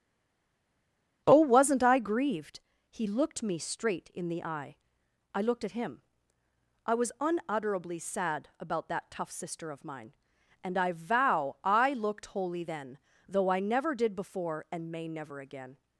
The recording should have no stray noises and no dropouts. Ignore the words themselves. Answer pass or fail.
pass